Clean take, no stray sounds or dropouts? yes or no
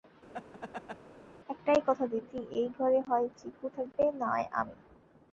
no